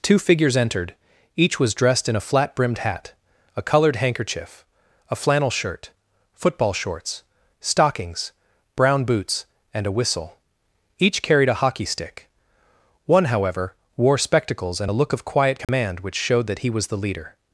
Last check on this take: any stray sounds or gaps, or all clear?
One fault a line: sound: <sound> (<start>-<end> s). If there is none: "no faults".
sound: dropout (15.6-15.7 s)